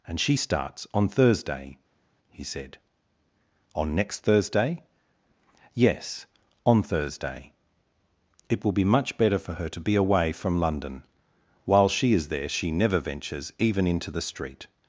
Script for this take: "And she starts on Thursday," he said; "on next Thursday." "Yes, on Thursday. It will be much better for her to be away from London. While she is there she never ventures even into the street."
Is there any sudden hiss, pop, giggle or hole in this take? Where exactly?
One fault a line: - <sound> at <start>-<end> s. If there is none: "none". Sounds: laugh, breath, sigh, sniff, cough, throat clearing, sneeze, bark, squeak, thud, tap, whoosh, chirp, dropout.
none